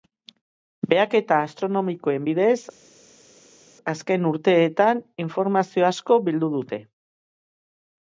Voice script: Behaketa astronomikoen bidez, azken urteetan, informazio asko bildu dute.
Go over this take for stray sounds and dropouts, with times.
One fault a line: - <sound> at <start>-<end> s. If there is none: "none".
none